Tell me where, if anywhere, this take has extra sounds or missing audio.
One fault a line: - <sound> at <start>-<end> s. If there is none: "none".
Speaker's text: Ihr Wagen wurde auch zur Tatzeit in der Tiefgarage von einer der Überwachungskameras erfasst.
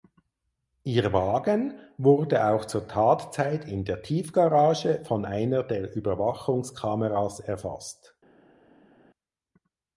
none